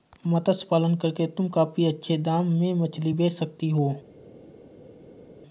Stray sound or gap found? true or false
false